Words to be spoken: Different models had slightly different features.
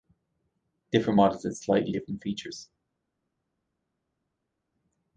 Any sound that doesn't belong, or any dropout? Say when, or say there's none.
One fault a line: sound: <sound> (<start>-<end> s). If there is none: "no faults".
no faults